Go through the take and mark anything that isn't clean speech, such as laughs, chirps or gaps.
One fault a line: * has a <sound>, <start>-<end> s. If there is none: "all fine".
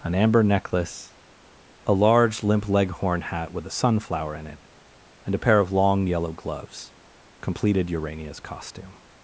all fine